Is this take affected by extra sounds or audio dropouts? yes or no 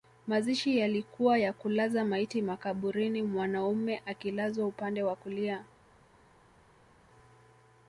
no